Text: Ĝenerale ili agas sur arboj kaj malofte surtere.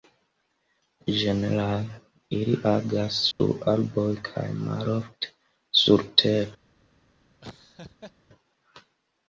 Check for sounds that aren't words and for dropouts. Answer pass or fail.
fail